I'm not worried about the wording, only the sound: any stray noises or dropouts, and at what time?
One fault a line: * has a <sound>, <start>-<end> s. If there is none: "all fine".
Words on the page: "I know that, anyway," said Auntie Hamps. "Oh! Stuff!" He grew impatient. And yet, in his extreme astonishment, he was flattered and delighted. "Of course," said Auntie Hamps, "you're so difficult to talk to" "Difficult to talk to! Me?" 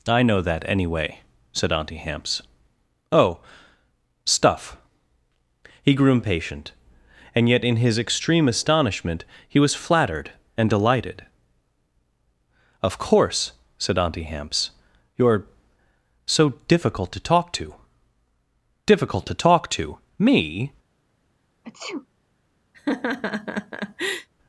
* has a sneeze, 21.6-22.1 s
* has a laugh, 22.7-24.3 s